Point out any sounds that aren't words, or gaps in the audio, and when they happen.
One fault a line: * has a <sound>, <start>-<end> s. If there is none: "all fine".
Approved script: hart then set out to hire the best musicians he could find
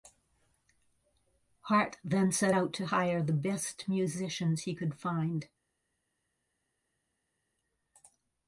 all fine